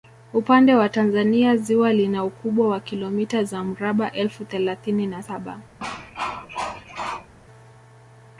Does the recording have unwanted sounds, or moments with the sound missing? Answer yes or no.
yes